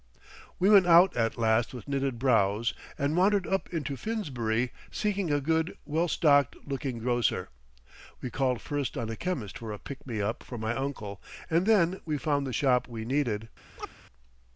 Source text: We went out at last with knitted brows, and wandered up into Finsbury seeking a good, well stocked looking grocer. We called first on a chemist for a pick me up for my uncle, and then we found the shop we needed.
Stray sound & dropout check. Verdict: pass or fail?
fail